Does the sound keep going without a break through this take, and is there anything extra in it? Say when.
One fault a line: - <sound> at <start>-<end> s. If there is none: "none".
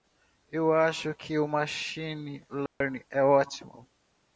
- dropout at 2.7-2.8 s